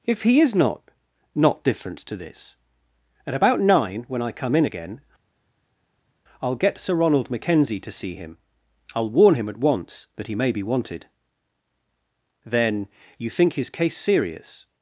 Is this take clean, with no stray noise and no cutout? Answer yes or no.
yes